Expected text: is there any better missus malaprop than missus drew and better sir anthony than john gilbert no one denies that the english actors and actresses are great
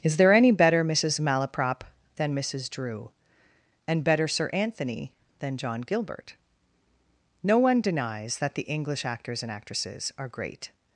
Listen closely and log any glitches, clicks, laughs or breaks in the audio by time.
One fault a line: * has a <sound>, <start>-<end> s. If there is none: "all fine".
all fine